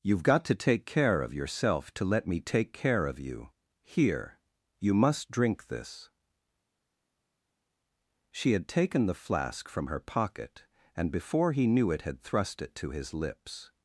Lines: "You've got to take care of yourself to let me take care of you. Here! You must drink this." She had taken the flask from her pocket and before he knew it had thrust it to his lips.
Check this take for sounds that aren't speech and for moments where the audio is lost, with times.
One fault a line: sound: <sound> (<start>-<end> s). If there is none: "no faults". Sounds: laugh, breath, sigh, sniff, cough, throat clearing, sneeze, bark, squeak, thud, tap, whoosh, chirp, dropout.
no faults